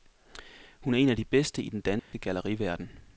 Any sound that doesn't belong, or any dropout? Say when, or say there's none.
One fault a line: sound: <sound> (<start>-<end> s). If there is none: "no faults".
sound: dropout (2.0-2.1 s)